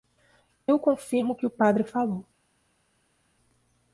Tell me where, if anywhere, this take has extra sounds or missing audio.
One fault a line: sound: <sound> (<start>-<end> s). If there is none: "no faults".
no faults